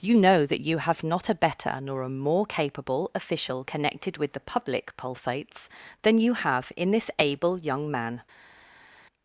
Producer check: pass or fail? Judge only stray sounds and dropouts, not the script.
pass